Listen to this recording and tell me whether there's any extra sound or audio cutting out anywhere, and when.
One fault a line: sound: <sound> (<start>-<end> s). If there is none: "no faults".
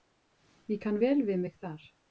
no faults